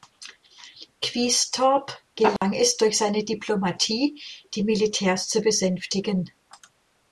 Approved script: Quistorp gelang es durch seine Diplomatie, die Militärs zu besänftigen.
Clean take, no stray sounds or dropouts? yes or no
no